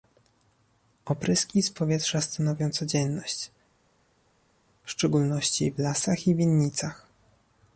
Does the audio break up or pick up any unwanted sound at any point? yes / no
no